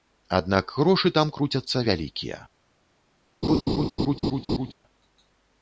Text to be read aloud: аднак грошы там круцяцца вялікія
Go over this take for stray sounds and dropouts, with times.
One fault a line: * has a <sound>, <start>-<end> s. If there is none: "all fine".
* has a laugh, 3.4-4.7 s